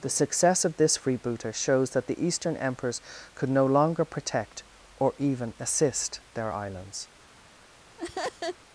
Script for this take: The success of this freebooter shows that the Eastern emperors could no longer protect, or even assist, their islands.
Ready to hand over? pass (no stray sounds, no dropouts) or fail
fail